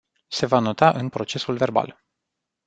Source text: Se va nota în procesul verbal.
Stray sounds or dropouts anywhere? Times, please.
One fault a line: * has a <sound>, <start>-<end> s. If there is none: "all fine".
all fine